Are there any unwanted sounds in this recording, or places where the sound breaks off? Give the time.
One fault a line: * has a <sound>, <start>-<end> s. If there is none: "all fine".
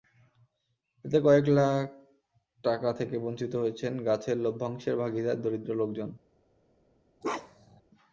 * has a bark, 7.2-7.8 s